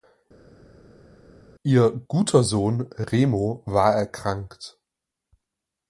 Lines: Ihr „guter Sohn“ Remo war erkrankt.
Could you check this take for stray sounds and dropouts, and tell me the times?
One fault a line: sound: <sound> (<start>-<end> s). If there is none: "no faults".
no faults